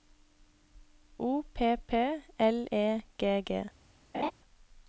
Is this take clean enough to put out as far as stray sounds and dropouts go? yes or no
no